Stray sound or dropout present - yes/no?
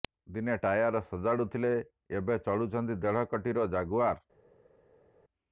no